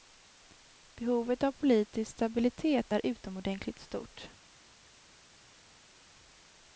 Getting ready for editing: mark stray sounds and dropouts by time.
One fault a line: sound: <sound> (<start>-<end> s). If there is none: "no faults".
no faults